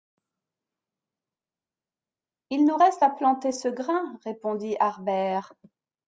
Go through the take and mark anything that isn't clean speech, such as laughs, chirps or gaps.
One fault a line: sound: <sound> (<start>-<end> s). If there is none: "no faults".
no faults